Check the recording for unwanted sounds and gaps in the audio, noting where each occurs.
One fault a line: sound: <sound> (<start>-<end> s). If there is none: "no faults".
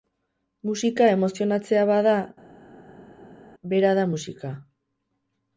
no faults